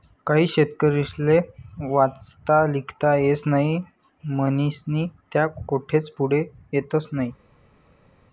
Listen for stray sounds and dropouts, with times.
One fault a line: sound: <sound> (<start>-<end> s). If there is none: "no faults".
no faults